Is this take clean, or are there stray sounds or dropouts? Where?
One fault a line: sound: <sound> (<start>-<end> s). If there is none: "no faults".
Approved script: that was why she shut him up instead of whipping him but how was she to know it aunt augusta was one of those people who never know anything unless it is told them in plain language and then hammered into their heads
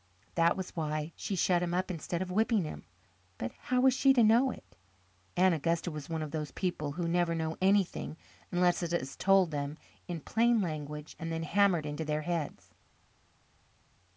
no faults